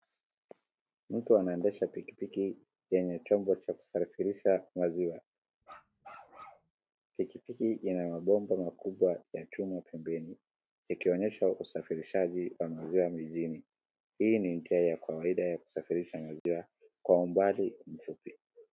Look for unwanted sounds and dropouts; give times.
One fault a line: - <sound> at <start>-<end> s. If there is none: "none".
- bark at 5.6-6.7 s
- dropout at 16.4-16.5 s